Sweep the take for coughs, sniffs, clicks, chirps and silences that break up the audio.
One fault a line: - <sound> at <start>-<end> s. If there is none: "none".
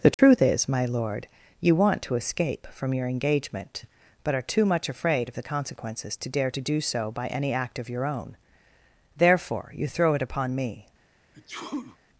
- dropout at 0.1-0.2 s
- sneeze at 11.3-12.0 s